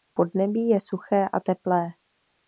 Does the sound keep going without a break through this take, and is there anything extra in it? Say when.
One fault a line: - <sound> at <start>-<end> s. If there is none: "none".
none